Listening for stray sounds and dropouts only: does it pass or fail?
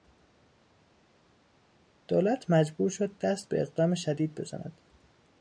pass